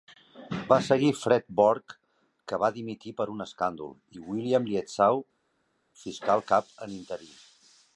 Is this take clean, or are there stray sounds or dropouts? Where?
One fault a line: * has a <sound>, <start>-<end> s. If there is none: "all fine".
all fine